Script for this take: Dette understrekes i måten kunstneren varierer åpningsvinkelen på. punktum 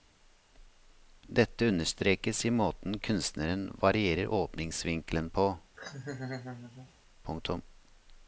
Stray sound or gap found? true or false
true